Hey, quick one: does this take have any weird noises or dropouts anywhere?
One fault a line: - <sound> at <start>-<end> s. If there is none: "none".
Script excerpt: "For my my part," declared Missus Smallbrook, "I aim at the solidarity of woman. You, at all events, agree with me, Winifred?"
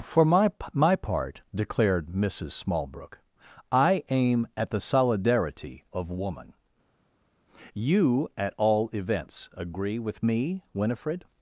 none